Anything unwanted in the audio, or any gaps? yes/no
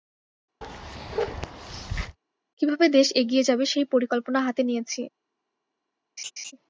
yes